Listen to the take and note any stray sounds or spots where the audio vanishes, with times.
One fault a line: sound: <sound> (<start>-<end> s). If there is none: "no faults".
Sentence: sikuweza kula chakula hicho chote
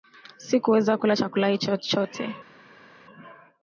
no faults